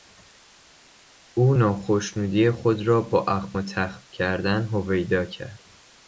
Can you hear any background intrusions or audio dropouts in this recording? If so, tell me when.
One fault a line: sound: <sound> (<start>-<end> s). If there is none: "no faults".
no faults